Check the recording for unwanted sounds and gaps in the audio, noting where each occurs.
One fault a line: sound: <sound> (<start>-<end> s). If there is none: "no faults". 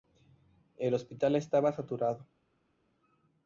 no faults